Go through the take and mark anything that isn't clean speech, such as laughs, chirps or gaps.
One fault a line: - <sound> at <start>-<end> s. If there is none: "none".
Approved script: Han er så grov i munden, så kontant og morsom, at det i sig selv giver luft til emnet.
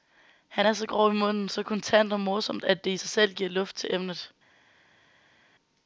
none